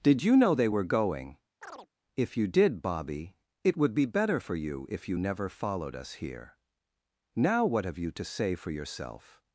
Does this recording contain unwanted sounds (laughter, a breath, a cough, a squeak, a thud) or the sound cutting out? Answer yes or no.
yes